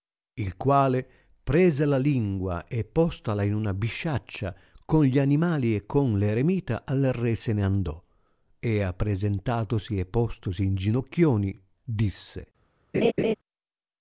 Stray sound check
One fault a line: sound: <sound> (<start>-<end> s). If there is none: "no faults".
sound: laugh (12.9-13.3 s)